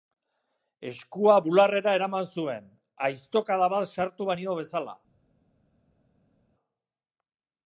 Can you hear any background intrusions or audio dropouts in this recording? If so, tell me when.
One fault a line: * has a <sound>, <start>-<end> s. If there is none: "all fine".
all fine